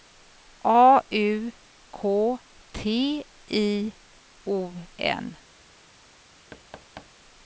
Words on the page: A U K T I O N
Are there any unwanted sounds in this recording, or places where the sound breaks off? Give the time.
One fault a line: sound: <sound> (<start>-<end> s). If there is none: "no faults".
sound: thud (6.5-7.1 s)